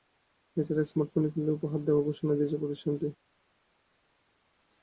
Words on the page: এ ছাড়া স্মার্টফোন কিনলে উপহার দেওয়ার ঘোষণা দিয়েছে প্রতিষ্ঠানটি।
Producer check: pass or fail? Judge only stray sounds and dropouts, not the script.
pass